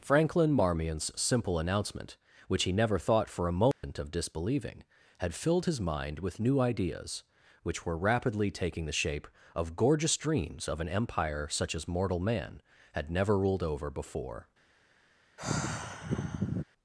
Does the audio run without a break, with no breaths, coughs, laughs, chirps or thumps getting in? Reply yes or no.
no